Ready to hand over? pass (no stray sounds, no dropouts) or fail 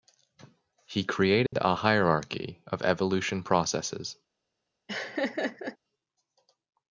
fail